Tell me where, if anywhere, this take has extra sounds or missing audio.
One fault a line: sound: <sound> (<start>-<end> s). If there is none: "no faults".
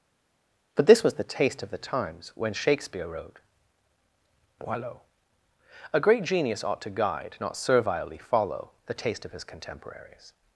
no faults